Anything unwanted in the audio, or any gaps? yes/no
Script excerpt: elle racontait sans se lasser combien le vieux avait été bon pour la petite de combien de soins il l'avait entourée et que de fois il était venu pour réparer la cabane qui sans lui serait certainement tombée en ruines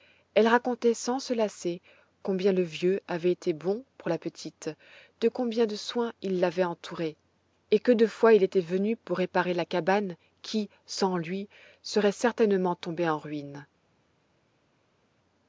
no